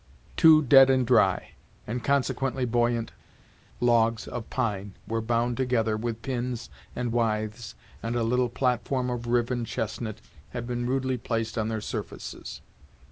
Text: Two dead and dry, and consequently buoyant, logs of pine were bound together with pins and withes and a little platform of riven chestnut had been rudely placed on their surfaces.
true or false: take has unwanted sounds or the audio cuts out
false